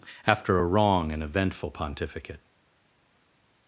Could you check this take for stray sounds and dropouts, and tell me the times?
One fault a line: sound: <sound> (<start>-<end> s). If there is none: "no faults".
no faults